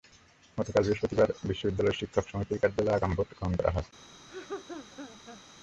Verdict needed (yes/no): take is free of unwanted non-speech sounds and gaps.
no